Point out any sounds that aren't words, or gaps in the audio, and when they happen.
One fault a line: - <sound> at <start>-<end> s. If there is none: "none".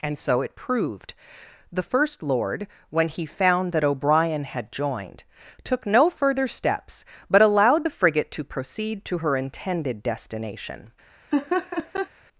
- laugh at 11.3-12.1 s